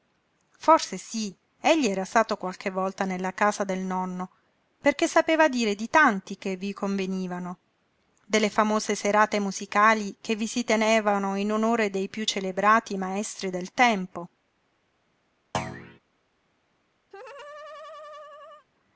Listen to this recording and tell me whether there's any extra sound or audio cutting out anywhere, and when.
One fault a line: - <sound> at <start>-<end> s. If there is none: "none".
- thud at 15.5-16.0 s
- laugh at 17.1-18.7 s